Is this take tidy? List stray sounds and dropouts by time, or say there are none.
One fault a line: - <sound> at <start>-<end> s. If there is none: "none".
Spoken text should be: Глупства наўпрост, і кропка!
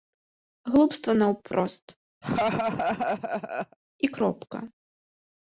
- laugh at 2.2-3.8 s